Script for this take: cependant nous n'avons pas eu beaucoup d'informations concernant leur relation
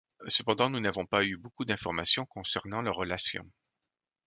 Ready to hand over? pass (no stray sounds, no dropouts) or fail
pass